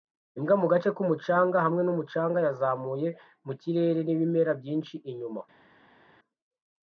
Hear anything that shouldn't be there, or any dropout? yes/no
no